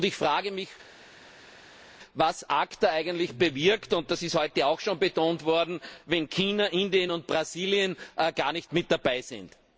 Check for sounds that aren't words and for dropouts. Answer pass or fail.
pass